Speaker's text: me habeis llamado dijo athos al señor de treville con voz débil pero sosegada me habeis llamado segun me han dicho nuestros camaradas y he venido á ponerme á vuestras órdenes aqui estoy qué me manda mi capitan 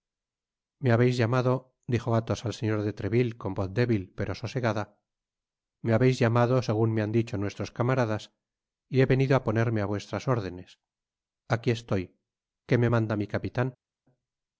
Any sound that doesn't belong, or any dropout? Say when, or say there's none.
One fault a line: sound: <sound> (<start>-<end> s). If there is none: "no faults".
no faults